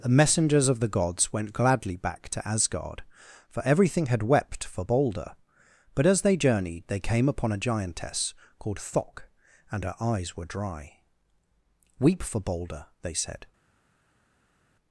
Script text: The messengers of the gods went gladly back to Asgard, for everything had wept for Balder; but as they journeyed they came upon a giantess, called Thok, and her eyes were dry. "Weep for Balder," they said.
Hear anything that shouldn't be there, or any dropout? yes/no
no